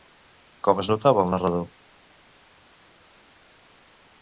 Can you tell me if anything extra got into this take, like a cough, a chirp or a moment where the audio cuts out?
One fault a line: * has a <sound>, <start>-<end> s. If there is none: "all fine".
all fine